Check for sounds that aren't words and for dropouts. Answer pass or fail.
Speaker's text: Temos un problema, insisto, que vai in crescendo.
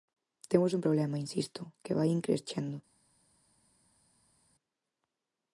pass